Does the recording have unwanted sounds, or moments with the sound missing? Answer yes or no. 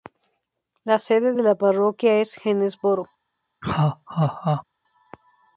yes